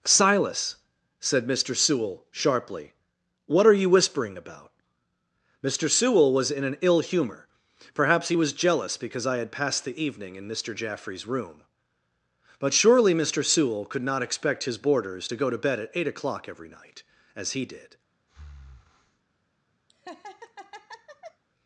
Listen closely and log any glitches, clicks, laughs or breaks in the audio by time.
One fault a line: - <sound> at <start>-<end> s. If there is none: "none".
- breath at 18.3-19.2 s
- laugh at 19.9-21.4 s